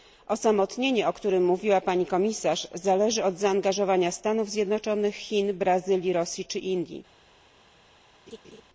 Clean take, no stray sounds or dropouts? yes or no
no